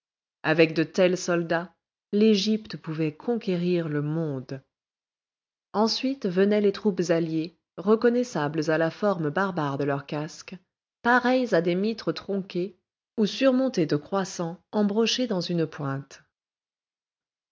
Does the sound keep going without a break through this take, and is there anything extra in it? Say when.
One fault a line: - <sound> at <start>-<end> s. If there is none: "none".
none